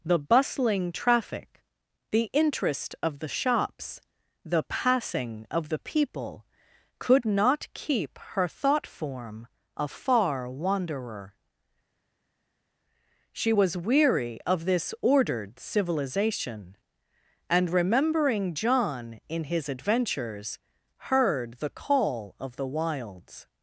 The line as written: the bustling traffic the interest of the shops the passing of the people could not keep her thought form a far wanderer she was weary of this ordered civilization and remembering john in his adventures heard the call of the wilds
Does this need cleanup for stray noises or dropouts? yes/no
no